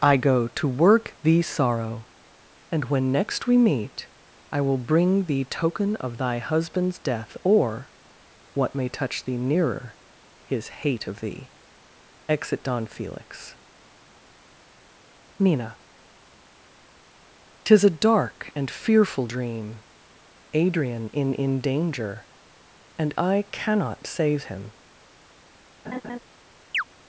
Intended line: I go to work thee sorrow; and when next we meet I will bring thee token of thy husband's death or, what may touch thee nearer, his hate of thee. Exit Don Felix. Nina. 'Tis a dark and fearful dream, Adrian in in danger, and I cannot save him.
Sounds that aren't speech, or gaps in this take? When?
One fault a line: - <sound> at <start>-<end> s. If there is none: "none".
- laugh at 25.8-26.2 s
- chirp at 26.7-26.8 s